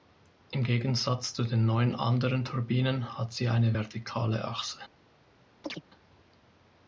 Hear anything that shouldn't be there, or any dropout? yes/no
yes